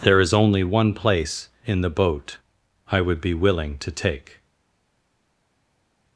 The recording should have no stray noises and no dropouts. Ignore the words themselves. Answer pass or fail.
pass